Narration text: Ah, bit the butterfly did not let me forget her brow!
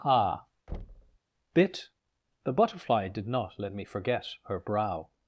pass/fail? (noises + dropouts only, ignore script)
fail